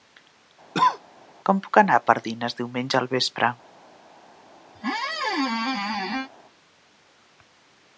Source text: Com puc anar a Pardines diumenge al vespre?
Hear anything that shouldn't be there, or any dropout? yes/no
yes